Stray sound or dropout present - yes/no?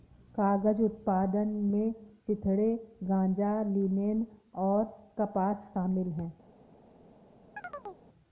yes